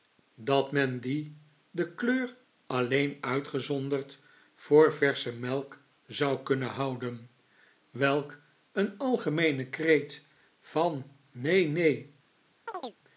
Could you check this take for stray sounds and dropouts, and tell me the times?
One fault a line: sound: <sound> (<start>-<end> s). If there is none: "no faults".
sound: chirp (12.7-13.0 s)